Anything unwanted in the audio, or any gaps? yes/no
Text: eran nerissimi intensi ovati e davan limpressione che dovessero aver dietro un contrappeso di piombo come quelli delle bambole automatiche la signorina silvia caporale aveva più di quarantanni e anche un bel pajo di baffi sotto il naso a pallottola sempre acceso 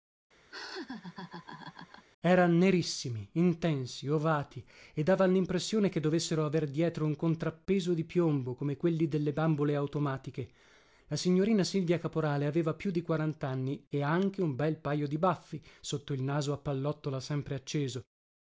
yes